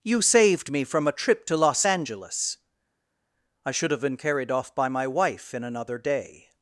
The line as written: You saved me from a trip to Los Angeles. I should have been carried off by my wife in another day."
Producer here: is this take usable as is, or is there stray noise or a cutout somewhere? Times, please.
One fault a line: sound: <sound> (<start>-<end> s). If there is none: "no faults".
no faults